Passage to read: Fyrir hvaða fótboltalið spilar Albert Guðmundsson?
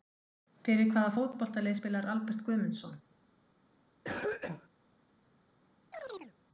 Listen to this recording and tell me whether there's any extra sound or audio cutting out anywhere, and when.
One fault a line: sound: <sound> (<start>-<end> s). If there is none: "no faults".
sound: cough (4.0-4.7 s)
sound: chirp (5.9-6.3 s)